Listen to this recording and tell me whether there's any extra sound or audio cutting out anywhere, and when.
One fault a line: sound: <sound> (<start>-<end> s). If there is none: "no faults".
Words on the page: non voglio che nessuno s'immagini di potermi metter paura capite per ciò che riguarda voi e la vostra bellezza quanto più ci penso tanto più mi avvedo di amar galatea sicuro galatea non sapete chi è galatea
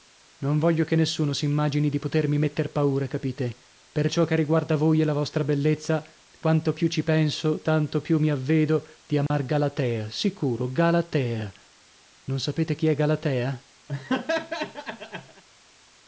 sound: dropout (9.3-9.3 s)
sound: laugh (13.9-15.4 s)